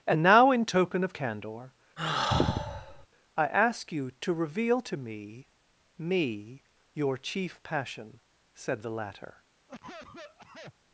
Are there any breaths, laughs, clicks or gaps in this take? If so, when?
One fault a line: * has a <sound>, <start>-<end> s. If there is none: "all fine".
* has a sigh, 2.0-3.1 s
* has a cough, 9.7-10.7 s